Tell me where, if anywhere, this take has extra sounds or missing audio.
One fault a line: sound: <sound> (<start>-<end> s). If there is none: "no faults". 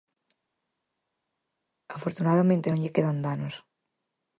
no faults